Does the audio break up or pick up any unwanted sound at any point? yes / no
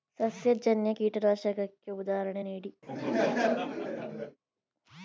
yes